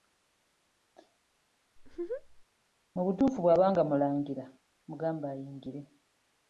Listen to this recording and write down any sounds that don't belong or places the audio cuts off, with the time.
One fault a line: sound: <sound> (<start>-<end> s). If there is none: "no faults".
sound: laugh (1.8-2.5 s)